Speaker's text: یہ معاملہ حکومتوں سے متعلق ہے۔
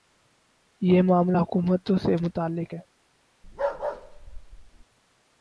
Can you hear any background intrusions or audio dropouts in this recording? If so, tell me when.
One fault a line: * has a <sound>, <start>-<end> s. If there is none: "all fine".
* has a bark, 3.4-4.8 s